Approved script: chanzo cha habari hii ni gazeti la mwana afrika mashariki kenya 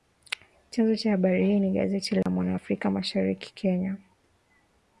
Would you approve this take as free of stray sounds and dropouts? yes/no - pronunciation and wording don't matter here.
no